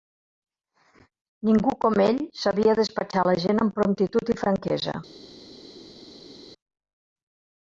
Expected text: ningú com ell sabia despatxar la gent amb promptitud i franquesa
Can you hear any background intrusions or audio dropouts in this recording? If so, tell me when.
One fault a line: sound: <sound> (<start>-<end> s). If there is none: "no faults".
no faults